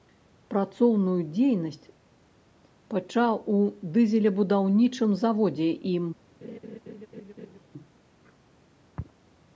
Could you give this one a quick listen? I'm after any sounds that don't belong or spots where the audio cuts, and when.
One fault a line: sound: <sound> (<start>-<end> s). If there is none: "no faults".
sound: laugh (6.4-7.6 s)